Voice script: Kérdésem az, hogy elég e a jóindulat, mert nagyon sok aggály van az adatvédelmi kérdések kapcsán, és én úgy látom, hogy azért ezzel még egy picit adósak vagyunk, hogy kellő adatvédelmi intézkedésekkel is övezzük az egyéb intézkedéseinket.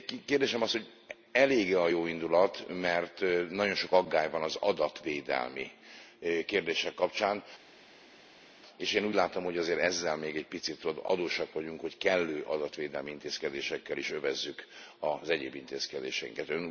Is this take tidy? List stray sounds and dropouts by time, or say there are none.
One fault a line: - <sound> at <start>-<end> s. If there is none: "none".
none